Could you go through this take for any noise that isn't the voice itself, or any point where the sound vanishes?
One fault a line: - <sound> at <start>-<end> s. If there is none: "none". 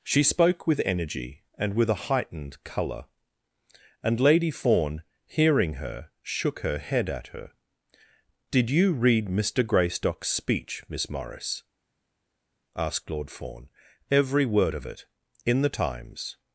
none